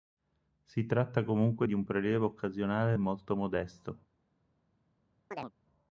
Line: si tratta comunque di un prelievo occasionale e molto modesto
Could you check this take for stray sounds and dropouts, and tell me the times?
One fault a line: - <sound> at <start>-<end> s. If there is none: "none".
- chirp at 5.3-5.5 s